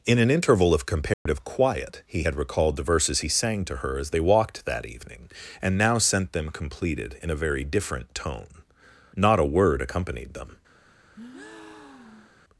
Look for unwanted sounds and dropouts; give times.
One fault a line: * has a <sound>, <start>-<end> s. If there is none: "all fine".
* has a dropout, 1.1-1.3 s
* has a breath, 11.1-12.4 s